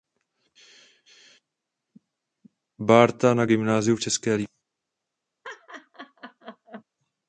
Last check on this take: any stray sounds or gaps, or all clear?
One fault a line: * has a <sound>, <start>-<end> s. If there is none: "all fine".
* has a laugh, 5.4-6.8 s